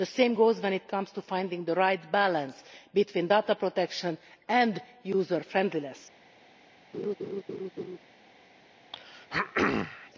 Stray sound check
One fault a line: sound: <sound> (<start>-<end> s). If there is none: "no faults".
sound: laugh (6.9-8.0 s)
sound: throat clearing (8.9-10.1 s)